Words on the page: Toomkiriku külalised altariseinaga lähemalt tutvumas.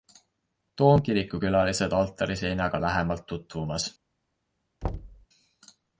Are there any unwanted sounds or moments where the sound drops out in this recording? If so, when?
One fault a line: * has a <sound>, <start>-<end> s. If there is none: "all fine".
* has a thud, 4.8-5.3 s